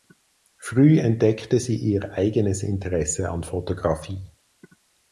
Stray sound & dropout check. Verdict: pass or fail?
pass